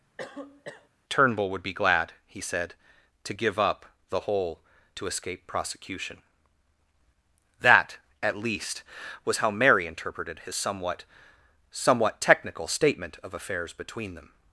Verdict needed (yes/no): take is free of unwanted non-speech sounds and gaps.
no